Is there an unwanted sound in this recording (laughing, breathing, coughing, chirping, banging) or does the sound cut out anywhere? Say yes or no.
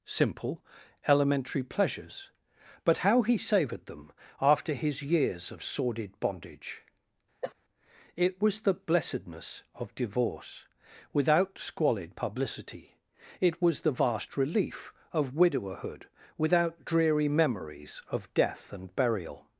yes